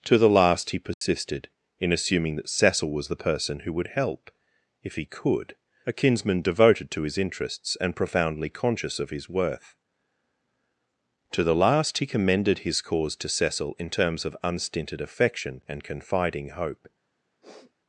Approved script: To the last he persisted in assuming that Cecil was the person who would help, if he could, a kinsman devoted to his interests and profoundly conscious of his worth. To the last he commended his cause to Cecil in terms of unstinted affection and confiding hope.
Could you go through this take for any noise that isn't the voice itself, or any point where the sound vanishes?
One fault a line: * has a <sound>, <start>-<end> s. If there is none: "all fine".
* has a dropout, 0.9-1.0 s
* has a sniff, 17.4-17.7 s